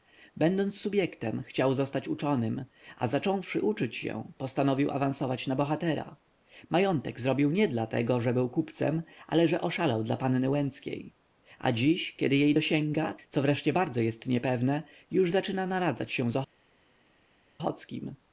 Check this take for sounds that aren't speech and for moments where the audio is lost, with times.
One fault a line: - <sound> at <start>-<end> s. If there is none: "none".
none